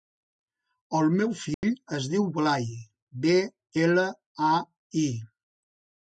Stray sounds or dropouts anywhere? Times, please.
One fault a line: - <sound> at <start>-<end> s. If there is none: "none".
- dropout at 1.5-1.6 s